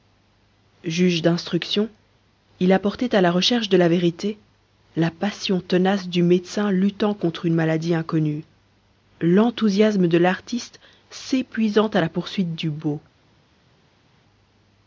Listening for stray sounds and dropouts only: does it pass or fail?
pass